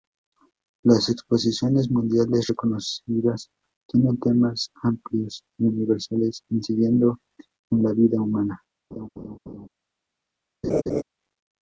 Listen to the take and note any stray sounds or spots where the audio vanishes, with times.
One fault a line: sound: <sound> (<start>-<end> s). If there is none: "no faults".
sound: laugh (8.9-9.7 s)
sound: laugh (10.6-11.0 s)